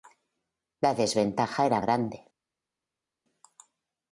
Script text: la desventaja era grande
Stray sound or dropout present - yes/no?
no